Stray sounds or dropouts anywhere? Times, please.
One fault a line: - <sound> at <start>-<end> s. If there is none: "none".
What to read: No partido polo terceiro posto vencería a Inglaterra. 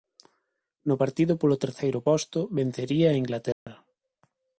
- dropout at 3.5-3.7 s